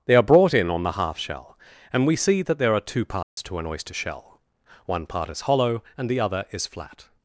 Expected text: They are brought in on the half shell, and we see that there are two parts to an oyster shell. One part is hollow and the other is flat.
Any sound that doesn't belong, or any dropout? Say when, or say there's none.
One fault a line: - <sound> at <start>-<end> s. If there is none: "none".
- dropout at 3.2-3.4 s